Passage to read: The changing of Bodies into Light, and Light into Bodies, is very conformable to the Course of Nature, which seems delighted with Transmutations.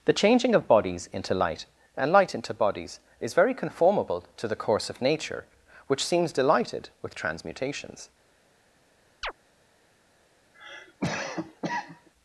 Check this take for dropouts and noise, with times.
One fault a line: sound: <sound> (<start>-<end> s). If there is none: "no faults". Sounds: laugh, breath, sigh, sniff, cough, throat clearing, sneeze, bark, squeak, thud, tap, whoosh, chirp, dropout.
sound: chirp (9.2-9.3 s)
sound: cough (10.5-12.1 s)